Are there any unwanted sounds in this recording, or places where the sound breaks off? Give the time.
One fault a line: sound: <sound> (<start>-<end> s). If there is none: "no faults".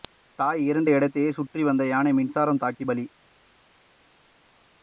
no faults